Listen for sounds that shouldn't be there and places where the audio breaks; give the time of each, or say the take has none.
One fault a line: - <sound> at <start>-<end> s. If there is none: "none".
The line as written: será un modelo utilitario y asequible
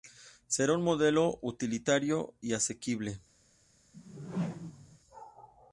- whoosh at 3.9-5.0 s